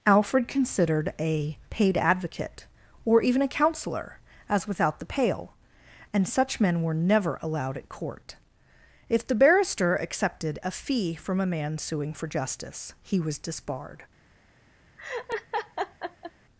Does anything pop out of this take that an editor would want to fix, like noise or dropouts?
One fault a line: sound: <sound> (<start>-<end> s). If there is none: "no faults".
sound: laugh (15.0-16.3 s)